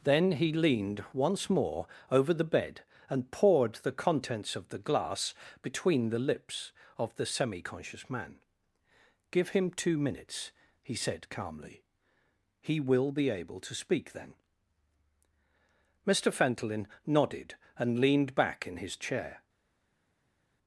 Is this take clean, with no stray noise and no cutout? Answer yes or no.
yes